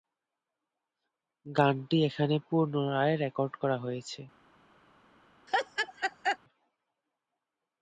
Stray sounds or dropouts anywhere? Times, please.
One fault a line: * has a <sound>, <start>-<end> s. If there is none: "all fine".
* has a laugh, 5.5-6.4 s